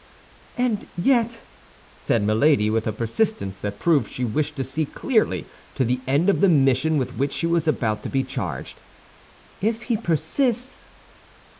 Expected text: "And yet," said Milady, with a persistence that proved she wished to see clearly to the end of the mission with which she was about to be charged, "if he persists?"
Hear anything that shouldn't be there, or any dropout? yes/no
no